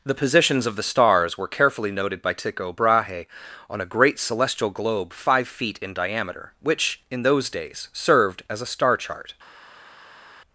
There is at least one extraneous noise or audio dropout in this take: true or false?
false